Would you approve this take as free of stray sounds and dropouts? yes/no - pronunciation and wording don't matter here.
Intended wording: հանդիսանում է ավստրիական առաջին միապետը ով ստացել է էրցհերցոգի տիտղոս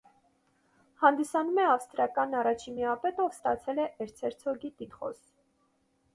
yes